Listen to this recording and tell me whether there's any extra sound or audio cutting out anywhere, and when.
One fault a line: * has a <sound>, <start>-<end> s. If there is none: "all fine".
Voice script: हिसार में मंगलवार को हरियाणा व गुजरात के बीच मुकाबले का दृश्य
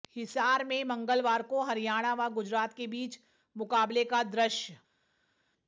all fine